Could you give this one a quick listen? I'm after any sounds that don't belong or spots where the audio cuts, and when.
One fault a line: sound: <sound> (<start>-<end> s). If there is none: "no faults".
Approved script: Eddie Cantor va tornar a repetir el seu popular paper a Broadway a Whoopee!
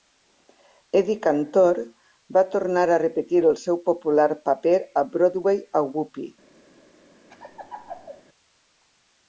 sound: laugh (7.3-8.2 s)